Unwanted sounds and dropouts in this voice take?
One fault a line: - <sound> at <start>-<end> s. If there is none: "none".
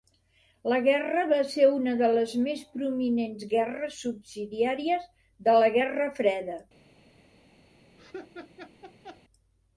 - laugh at 8.0-9.2 s